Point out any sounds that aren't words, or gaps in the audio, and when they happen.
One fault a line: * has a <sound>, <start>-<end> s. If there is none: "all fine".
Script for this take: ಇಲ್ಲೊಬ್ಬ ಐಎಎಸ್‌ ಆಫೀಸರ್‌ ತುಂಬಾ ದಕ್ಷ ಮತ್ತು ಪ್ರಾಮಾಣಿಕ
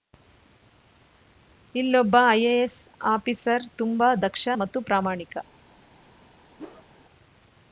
* has a whoosh, 6.6-6.9 s